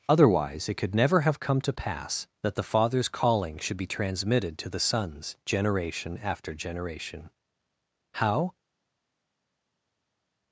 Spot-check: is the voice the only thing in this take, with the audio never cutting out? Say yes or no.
yes